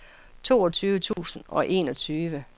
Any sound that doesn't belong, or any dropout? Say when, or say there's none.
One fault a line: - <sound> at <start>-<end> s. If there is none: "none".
- dropout at 1.1-1.2 s